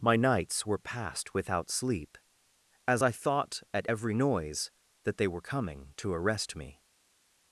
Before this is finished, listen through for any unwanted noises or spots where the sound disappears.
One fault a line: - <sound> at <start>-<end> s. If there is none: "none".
none